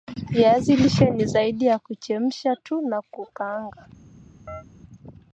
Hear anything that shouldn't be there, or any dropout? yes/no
yes